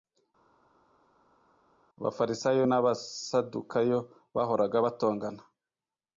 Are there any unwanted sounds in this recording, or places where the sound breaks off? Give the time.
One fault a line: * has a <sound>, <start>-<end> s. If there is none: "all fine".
all fine